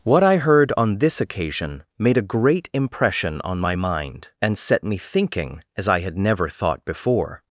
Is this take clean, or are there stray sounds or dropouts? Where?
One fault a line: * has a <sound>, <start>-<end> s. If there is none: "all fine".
all fine